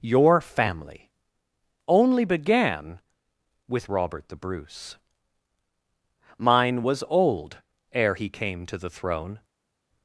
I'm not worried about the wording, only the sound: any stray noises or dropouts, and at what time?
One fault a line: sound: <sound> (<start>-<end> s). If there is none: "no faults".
no faults